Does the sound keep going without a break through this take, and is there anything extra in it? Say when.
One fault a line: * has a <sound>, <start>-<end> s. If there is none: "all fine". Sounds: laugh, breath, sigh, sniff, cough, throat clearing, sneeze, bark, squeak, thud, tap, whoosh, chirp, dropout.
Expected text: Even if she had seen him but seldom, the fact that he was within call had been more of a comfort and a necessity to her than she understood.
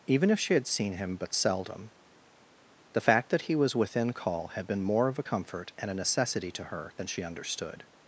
all fine